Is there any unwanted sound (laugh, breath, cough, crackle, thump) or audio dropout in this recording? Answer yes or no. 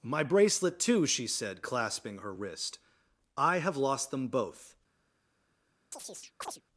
yes